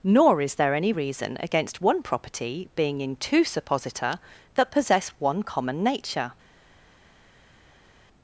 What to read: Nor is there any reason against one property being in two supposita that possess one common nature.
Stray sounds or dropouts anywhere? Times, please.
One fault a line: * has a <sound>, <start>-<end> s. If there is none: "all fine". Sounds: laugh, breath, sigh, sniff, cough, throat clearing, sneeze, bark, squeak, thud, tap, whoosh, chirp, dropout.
all fine